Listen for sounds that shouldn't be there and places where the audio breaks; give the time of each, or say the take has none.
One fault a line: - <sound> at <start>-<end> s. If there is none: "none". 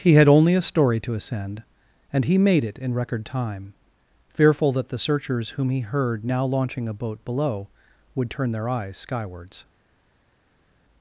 none